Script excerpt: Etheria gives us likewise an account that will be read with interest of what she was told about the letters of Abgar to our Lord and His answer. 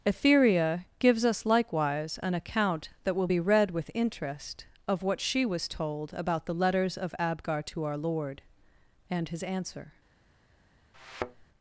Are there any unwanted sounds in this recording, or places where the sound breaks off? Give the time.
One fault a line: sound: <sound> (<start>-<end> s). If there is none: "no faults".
sound: thud (10.9-11.5 s)